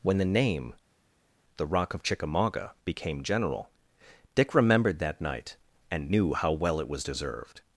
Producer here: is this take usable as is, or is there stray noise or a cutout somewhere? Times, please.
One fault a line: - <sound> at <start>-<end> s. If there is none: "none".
none